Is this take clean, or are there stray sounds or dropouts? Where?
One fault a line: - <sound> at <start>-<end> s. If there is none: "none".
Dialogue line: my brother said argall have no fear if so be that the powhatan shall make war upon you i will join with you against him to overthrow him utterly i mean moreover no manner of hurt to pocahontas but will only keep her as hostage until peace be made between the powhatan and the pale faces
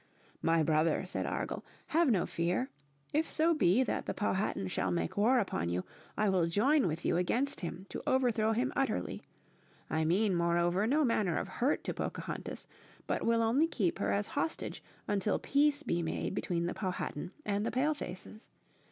none